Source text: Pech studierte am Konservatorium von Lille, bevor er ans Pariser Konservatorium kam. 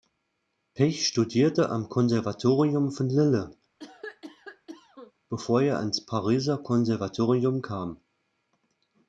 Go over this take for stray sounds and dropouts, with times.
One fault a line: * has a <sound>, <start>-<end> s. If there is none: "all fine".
* has a cough, 3.8-5.1 s